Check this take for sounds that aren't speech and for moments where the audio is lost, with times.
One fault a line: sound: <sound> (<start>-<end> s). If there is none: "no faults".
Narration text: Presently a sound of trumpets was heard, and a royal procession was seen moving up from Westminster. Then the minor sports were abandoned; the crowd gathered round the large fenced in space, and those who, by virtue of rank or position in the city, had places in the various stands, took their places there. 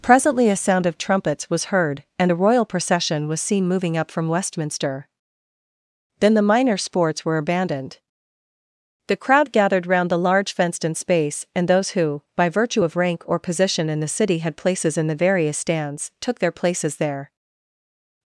no faults